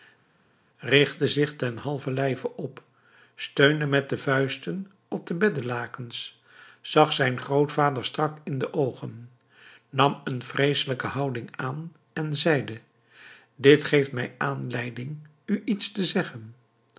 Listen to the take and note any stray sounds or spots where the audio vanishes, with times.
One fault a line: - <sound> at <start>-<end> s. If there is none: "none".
none